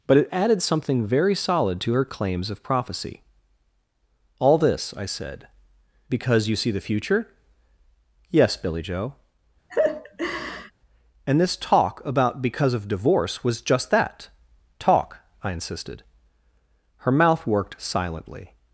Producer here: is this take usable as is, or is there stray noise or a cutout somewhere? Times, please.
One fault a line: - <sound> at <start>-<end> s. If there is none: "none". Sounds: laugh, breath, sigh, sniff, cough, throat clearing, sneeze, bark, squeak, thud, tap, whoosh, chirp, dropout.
- laugh at 9.7-10.7 s